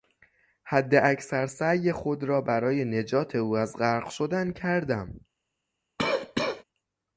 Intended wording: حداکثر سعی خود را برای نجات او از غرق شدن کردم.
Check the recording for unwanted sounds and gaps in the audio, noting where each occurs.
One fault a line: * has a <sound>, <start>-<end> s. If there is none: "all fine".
* has a cough, 6.0-6.6 s